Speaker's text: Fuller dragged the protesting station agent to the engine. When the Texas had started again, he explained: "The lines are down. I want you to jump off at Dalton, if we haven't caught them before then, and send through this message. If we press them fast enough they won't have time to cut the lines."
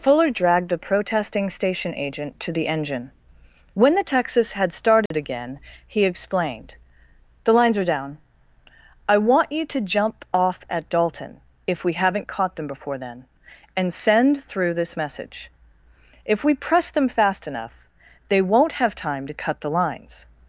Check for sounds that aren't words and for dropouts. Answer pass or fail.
fail